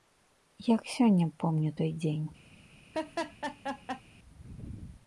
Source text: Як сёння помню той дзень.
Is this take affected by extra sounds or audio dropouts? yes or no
yes